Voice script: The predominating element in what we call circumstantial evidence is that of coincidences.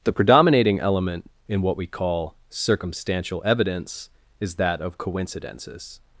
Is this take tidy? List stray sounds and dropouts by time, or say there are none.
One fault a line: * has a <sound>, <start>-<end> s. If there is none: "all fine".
all fine